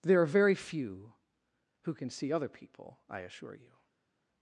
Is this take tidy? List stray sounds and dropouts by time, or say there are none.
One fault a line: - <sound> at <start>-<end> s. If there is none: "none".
none